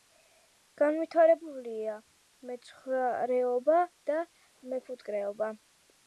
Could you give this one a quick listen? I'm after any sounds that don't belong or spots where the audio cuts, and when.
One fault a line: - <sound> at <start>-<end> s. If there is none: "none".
none